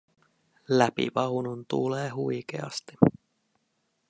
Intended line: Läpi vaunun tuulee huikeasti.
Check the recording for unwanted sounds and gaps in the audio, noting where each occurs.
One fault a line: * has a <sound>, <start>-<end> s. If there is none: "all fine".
all fine